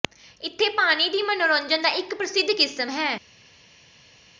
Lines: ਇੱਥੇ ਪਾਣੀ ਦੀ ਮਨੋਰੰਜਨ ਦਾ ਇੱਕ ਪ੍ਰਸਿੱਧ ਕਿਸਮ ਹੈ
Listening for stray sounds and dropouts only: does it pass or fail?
pass